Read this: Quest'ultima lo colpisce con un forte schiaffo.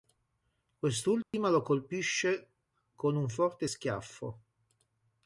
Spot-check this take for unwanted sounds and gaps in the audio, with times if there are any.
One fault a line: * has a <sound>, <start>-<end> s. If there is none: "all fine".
* has a dropout, 1.2-1.3 s